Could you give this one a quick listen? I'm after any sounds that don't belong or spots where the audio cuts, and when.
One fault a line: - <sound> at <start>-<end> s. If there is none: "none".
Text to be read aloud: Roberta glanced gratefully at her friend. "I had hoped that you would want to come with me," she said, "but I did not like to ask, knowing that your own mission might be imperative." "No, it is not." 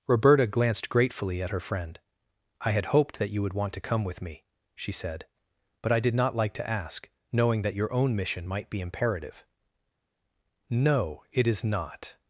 none